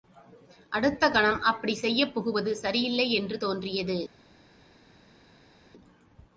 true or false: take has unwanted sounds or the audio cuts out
false